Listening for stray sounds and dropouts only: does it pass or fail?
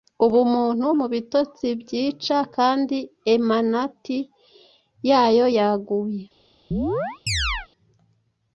fail